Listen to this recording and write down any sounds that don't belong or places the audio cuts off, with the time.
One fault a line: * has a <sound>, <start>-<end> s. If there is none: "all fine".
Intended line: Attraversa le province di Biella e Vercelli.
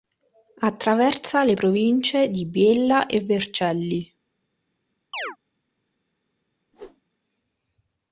* has a chirp, 5.1-5.4 s
* has a whoosh, 6.7-7.0 s